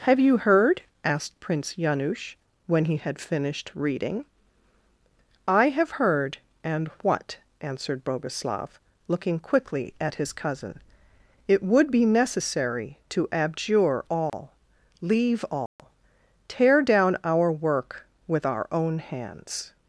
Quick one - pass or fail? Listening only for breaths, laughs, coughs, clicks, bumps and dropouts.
fail